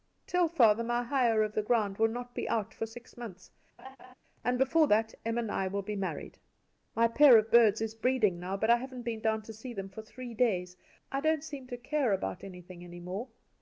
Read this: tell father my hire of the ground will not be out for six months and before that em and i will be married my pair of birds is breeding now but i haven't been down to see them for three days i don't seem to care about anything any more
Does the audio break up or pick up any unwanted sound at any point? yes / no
yes